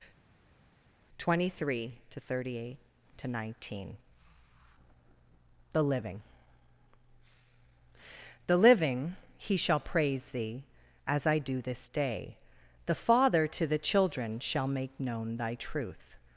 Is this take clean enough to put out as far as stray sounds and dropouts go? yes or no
yes